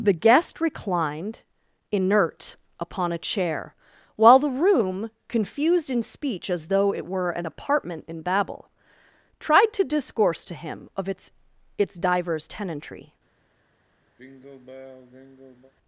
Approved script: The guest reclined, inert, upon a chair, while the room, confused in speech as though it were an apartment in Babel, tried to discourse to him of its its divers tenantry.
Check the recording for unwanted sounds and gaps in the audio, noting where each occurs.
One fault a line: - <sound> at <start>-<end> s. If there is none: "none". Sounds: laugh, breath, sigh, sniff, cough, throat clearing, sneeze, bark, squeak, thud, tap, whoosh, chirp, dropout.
- sigh at 14.2-15.7 s